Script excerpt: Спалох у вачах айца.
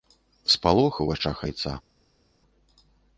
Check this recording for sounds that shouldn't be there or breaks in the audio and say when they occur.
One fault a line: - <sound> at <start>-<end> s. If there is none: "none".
none